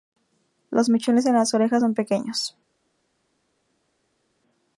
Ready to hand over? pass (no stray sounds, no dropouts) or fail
pass